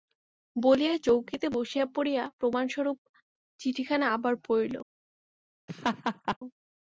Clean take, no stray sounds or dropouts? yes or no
no